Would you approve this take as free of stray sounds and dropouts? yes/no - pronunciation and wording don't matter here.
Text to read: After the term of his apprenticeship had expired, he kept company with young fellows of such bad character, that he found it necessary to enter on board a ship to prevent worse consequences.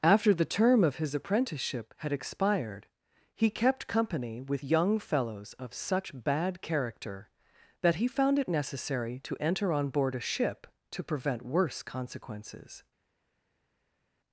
yes